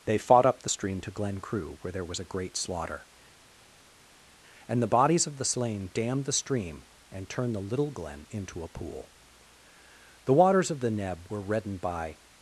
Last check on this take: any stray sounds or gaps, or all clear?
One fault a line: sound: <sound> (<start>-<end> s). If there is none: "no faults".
no faults